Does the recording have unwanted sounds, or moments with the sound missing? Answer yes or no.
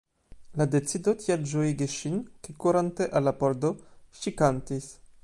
no